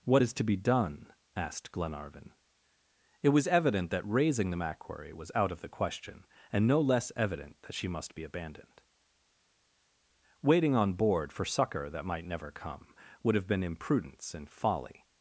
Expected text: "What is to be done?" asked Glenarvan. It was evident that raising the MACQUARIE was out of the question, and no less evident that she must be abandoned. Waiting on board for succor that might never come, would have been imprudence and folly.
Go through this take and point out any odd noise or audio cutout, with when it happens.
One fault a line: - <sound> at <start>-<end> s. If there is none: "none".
none